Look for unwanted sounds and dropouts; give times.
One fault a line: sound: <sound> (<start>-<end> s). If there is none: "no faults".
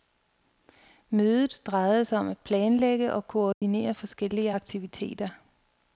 sound: dropout (3.5-3.6 s)